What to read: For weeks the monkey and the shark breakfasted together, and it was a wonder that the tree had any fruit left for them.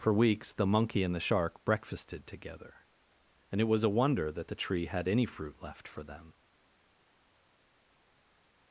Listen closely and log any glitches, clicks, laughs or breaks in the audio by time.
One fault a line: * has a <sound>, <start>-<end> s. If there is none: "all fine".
all fine